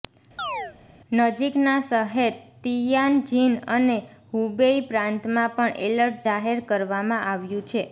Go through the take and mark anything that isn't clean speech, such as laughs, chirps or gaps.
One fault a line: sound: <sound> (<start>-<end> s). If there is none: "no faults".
sound: chirp (0.4-0.8 s)